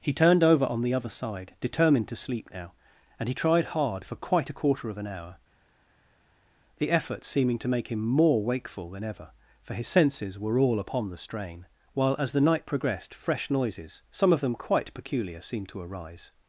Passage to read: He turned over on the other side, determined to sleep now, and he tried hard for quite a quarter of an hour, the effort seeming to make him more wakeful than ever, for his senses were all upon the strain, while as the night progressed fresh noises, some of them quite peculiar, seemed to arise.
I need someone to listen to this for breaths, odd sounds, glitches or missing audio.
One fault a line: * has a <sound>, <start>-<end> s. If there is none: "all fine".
all fine